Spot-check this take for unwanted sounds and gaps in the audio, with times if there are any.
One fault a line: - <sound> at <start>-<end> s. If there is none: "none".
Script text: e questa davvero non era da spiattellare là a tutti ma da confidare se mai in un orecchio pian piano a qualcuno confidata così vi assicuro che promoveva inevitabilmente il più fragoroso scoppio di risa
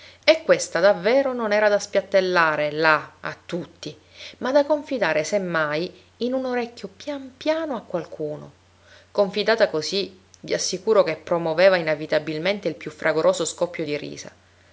none